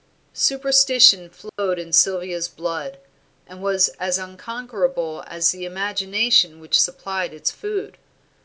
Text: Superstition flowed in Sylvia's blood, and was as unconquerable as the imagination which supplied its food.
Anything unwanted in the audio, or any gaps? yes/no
yes